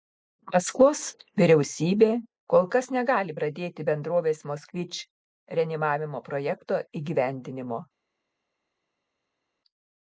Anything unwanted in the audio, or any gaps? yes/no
no